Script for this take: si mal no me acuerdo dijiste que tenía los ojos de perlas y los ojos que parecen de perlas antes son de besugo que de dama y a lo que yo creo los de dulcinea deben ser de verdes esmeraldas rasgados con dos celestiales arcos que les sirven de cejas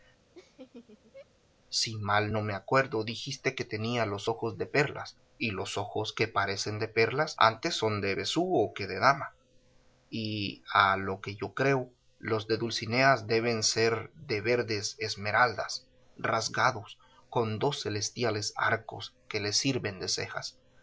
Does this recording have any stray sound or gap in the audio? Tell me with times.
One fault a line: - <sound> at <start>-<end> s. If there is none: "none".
- laugh at 0.4-1.3 s